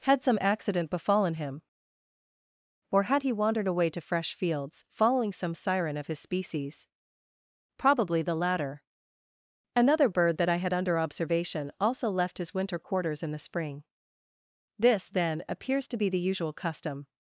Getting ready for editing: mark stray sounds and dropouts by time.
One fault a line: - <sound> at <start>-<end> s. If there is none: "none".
none